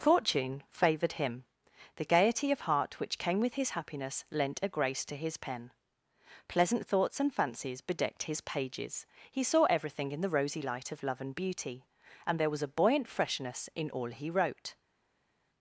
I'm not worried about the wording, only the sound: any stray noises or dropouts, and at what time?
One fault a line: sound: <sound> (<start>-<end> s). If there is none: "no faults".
no faults